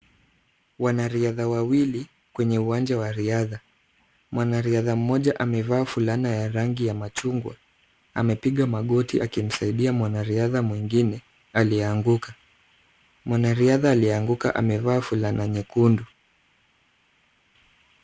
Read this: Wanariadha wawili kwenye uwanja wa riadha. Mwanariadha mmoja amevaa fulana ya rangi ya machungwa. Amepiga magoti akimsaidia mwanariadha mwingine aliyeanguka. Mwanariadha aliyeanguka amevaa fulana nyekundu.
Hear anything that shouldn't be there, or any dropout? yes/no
no